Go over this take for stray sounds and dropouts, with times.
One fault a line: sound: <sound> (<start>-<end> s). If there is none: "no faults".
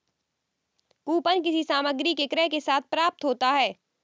no faults